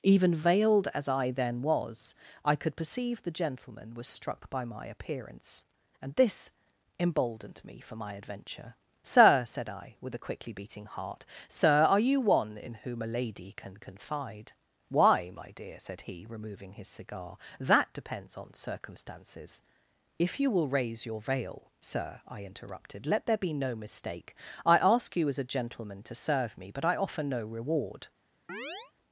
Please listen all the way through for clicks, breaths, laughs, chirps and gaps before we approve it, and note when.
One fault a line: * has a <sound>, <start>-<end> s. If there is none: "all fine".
* has a chirp, 28.5-28.9 s